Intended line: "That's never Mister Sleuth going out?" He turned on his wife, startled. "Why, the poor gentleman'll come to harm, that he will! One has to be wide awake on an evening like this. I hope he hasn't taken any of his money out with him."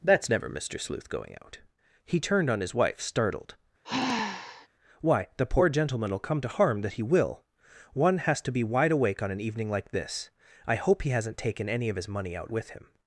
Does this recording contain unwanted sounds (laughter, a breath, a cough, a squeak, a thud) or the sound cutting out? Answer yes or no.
yes